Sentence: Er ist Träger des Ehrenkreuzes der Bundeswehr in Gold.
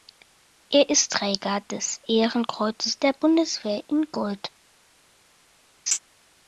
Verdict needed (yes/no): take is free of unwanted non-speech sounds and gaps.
no